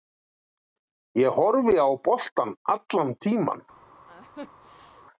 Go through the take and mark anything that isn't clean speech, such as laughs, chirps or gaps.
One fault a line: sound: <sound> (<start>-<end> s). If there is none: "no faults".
sound: laugh (4.1-5.1 s)